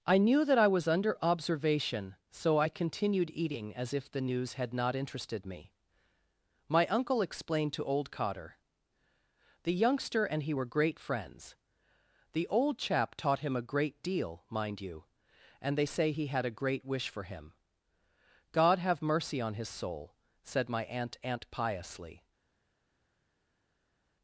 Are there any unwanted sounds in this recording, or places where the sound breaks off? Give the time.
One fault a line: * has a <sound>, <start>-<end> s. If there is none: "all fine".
all fine